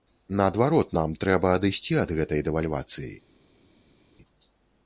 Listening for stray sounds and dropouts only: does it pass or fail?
pass